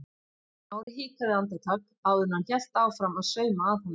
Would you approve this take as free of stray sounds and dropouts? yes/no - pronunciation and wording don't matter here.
no